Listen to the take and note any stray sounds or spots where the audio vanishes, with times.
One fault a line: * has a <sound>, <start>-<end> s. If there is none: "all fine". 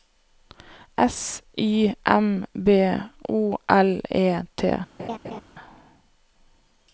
* has a laugh, 5.0-5.4 s